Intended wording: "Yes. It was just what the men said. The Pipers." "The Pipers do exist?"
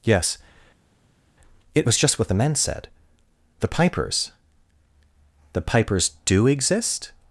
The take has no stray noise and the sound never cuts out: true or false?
true